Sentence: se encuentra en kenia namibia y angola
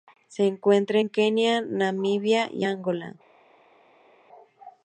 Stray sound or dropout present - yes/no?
no